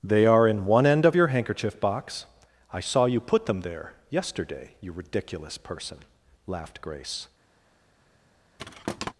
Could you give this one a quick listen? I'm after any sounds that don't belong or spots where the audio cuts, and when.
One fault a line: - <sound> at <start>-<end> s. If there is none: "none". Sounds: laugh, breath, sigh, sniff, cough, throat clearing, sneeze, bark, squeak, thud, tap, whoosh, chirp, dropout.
- thud at 8.6-9.1 s